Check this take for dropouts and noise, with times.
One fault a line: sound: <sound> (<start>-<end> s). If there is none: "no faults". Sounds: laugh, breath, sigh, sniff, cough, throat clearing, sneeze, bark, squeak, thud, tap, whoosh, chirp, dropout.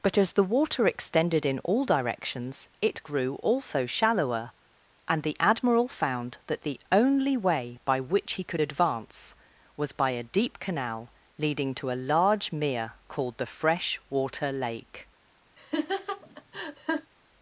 sound: laugh (15.6-17.1 s)